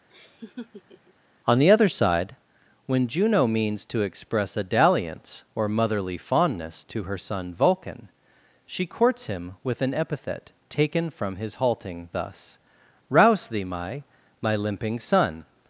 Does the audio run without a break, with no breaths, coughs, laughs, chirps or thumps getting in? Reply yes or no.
no